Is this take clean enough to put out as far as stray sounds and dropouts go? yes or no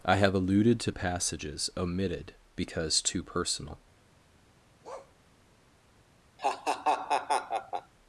no